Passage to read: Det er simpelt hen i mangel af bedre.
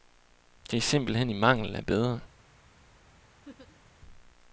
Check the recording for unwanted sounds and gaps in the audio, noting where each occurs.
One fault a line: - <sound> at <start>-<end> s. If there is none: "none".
- laugh at 3.4-3.8 s